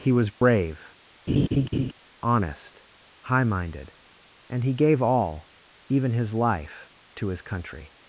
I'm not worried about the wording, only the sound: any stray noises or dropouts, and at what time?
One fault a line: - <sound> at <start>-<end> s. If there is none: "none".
- dropout at 0.4-0.4 s
- laugh at 1.3-1.9 s